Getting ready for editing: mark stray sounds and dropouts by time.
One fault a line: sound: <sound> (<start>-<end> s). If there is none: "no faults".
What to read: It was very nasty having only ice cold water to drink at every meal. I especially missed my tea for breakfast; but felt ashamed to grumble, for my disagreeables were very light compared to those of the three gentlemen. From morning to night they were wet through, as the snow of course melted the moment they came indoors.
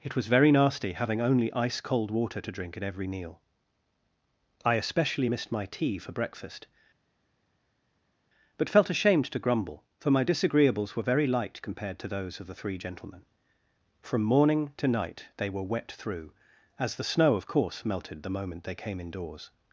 no faults